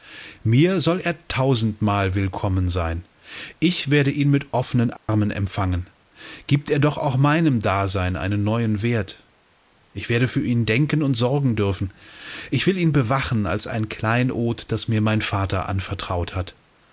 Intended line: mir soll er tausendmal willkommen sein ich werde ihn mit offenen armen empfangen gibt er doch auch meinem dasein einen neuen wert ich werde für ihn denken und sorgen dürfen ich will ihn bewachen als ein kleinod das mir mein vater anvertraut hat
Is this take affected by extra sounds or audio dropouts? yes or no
yes